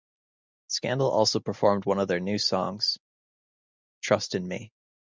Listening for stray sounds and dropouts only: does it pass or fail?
pass